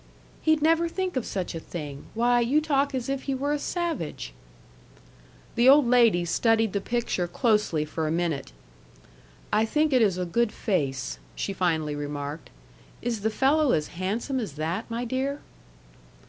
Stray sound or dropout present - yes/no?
no